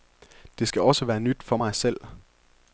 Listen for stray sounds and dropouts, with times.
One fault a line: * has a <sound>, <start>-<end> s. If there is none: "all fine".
all fine